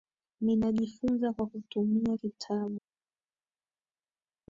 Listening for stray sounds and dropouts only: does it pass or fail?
pass